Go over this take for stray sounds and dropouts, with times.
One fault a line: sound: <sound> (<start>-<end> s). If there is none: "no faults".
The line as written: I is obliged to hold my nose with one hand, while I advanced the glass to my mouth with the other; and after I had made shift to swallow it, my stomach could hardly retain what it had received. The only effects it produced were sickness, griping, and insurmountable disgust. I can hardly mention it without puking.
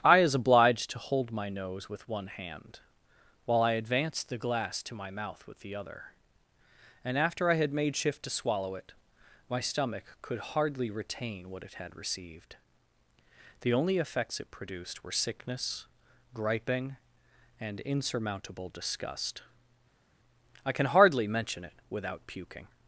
no faults